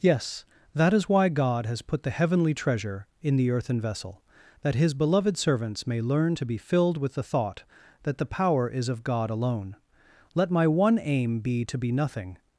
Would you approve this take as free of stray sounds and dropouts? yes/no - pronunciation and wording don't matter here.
yes